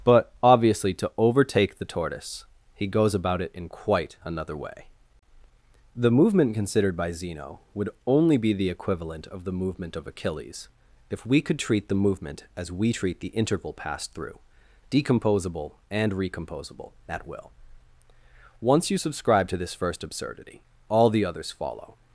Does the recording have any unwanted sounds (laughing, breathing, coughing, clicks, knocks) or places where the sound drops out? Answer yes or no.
no